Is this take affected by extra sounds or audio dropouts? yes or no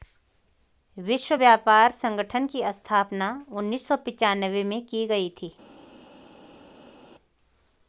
no